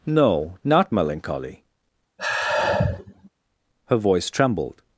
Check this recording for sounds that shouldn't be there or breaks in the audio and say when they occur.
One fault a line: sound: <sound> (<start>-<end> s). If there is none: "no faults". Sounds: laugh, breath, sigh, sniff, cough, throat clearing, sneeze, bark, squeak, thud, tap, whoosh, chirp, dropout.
sound: sigh (2.2-3.3 s)